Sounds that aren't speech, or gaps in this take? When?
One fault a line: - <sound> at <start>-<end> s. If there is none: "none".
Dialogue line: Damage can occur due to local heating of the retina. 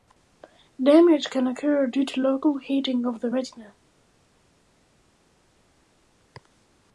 none